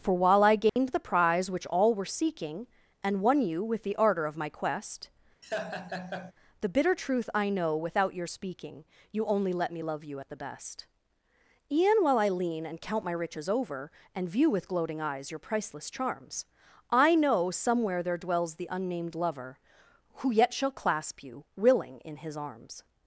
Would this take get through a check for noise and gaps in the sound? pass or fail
fail